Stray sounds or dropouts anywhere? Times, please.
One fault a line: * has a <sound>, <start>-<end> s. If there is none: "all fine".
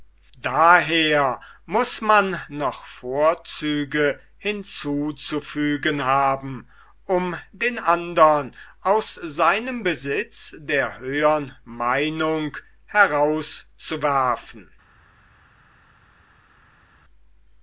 all fine